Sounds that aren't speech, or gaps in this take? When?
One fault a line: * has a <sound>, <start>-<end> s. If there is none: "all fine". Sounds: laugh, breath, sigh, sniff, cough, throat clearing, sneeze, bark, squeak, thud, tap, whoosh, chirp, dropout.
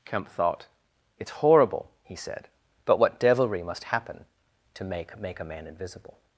all fine